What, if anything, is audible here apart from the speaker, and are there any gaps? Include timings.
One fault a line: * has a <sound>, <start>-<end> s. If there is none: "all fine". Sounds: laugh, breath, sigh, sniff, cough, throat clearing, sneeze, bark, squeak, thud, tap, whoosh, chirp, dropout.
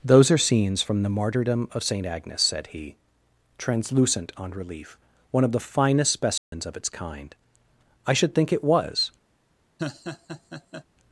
* has a dropout, 6.4-6.5 s
* has a laugh, 9.8-10.8 s